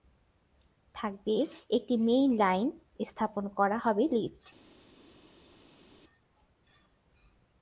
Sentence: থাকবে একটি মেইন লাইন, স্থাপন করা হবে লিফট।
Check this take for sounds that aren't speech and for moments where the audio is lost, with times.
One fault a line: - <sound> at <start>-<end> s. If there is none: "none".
none